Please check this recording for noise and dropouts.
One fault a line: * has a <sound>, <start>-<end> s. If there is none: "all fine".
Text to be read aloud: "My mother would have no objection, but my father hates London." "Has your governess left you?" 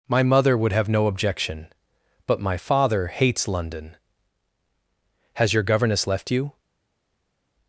all fine